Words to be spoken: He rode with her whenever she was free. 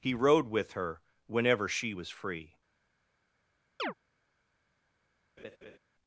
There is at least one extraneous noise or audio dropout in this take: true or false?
true